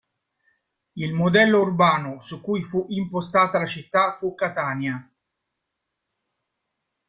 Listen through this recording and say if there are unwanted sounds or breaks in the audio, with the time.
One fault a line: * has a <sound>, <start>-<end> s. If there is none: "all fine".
all fine